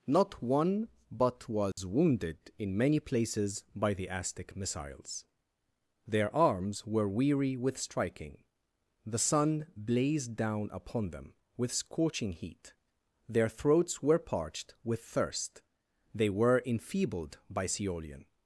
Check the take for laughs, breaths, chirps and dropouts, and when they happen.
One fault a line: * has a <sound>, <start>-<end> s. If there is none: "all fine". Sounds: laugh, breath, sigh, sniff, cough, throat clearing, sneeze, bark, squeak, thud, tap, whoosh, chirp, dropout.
* has a dropout, 1.7-1.8 s